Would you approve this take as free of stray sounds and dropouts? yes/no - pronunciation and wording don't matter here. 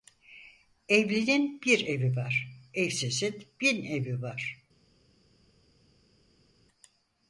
yes